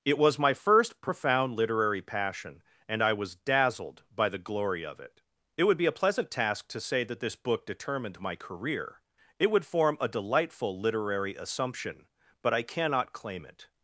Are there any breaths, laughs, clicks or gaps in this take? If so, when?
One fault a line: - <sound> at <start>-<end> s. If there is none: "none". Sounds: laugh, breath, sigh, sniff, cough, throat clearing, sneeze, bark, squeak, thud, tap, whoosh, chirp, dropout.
none